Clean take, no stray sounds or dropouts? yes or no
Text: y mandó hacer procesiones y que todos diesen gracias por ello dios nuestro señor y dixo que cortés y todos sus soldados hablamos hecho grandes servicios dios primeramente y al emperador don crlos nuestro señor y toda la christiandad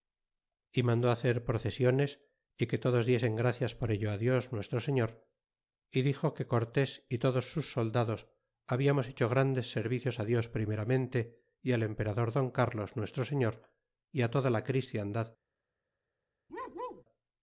no